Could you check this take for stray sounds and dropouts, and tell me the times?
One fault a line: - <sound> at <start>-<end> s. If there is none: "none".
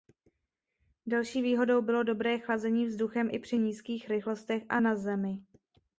none